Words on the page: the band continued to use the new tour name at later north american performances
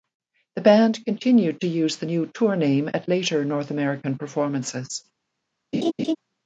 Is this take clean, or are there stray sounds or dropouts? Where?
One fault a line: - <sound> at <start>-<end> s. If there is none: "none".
- laugh at 5.7-6.2 s